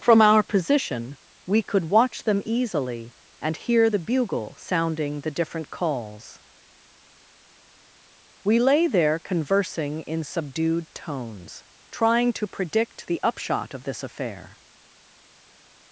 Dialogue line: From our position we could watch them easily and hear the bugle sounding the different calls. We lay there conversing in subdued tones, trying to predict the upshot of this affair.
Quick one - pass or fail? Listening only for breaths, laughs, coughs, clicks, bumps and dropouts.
pass